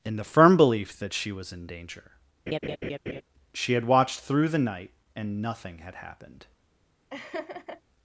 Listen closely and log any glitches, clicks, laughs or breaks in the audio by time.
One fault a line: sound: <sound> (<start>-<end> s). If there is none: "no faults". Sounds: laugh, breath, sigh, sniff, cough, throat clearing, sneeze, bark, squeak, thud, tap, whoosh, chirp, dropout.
sound: laugh (2.5-3.2 s)
sound: laugh (7.1-7.8 s)